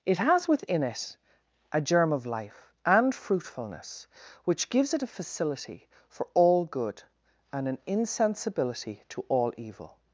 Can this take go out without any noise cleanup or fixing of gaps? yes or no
yes